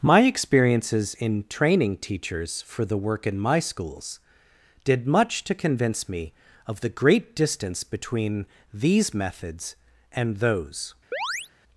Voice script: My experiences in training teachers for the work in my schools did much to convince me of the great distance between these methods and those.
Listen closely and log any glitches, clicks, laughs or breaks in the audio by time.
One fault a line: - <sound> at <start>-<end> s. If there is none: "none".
- chirp at 11.1-11.5 s